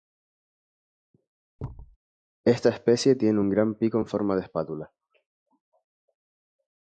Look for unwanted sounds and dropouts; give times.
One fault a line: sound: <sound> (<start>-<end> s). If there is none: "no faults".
sound: thud (1.6-2.0 s)